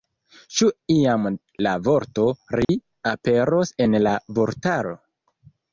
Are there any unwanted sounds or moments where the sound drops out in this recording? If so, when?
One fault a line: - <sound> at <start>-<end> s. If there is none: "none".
- dropout at 2.6-2.7 s